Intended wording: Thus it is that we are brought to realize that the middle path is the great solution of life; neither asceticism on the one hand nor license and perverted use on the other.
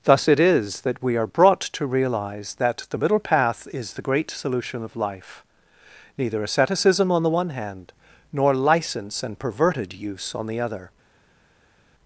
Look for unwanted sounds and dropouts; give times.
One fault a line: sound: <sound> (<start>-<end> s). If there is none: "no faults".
no faults